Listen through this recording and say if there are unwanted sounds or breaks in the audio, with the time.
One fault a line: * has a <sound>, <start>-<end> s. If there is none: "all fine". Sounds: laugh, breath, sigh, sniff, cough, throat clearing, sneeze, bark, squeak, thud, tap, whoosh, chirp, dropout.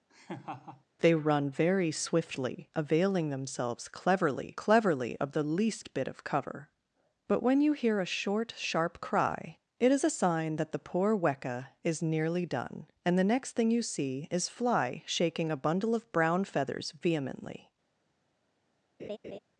* has a laugh, 0.1-0.8 s
* has a laugh, 19.0-19.4 s